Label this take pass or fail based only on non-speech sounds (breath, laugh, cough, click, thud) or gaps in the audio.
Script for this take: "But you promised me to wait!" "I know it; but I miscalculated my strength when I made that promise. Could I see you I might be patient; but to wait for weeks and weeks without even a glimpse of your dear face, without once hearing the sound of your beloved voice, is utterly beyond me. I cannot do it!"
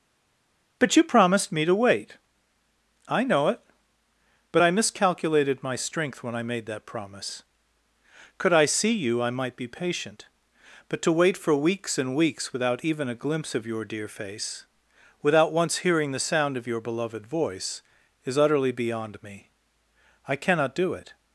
pass